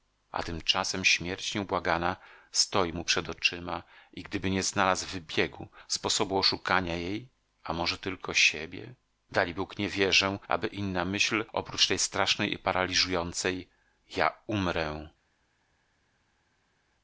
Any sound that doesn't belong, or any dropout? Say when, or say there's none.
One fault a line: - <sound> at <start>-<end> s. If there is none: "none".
none